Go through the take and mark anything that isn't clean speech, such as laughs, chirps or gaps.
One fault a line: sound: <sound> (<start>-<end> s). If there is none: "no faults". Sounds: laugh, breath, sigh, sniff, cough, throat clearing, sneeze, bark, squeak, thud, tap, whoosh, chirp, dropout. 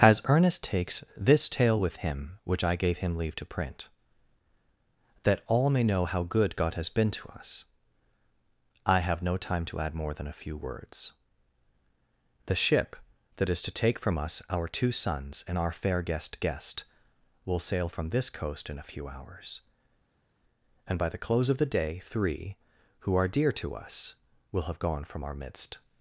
no faults